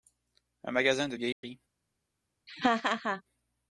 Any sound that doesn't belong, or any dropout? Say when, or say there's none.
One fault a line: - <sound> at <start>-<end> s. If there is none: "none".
- dropout at 1.3-1.4 s
- laugh at 2.5-3.2 s